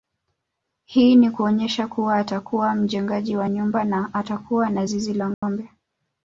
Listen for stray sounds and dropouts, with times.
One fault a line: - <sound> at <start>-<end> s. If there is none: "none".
- dropout at 5.3-5.4 s